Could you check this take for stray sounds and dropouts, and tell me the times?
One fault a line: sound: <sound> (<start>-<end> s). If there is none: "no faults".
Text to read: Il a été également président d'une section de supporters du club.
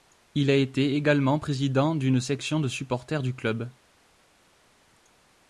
no faults